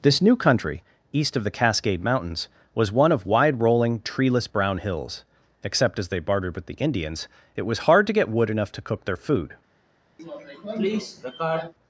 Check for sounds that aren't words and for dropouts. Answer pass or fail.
fail